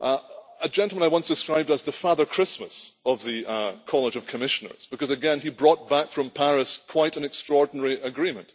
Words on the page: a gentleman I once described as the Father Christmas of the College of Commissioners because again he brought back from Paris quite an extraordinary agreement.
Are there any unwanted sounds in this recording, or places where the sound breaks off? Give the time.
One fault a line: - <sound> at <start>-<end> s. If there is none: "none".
none